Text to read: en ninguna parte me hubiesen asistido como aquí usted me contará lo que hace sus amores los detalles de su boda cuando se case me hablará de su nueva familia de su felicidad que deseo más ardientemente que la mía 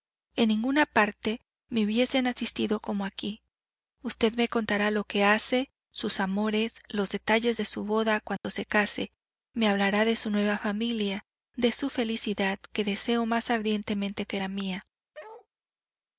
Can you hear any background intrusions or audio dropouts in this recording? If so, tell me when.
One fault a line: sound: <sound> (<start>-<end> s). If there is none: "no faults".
sound: dropout (8.4-8.4 s)
sound: bark (15.1-15.5 s)